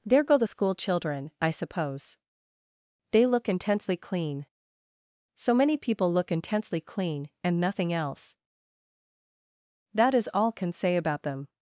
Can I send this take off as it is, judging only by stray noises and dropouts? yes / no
yes